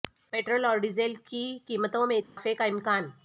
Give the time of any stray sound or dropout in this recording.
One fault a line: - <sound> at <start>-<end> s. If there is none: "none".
- dropout at 2.2-2.4 s